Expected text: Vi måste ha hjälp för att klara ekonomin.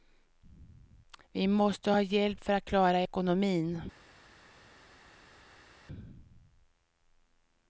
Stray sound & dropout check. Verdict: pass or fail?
pass